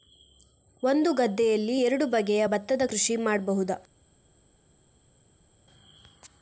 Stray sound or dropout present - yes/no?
no